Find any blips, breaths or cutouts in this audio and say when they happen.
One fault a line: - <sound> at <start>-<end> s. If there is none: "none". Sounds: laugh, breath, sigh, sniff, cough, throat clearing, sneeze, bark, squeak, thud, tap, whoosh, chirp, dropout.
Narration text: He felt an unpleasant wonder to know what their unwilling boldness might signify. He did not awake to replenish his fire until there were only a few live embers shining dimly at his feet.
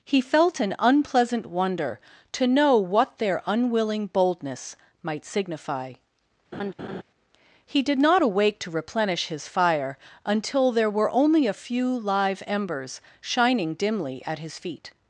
- laugh at 6.5-7.0 s